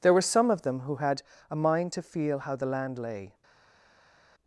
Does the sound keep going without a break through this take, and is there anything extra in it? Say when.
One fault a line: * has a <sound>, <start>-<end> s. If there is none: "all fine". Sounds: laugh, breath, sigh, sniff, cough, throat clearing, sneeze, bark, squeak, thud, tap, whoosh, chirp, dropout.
all fine